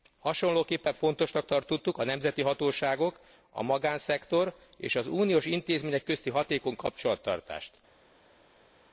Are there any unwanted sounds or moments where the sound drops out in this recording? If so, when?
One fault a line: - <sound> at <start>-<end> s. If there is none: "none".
none